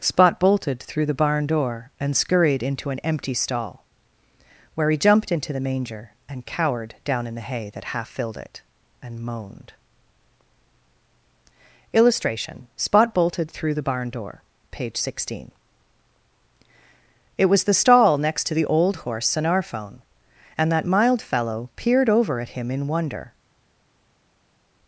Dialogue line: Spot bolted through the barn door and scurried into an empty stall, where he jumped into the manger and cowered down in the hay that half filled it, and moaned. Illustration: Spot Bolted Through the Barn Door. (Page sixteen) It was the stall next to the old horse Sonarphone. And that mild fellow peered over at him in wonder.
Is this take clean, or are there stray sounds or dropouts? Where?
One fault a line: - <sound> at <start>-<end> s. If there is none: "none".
none